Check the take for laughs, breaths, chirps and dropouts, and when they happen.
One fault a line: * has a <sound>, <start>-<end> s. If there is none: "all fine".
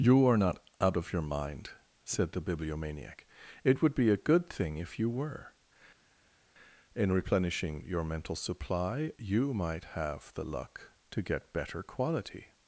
all fine